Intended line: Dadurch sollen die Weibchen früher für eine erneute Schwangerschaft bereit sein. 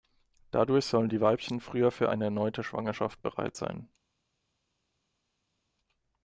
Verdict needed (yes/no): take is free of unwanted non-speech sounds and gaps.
yes